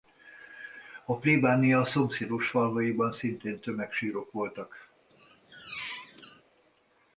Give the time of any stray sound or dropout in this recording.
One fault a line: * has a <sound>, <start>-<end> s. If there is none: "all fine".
* has a squeak, 5.1-6.4 s